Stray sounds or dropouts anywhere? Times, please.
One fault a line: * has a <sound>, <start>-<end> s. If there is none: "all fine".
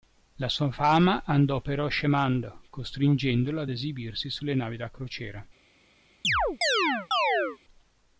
* has a chirp, 6.2-7.6 s